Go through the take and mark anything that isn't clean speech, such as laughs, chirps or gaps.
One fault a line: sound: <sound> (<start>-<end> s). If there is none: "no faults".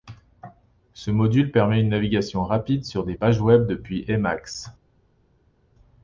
no faults